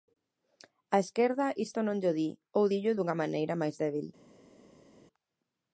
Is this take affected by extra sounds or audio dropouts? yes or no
no